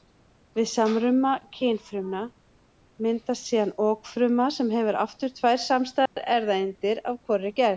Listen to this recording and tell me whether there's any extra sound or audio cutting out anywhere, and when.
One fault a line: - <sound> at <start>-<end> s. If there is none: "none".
- dropout at 6.1-6.2 s